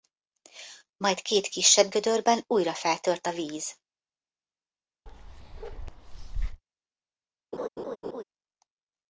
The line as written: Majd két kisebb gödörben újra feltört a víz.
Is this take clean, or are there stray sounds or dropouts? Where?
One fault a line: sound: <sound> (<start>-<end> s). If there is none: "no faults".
sound: bark (5.1-6.6 s)
sound: laugh (7.5-8.2 s)